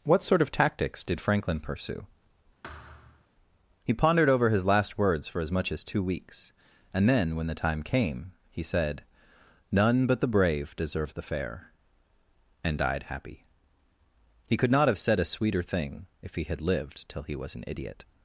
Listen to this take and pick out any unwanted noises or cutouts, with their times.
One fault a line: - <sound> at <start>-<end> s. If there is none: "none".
- thud at 2.6-3.3 s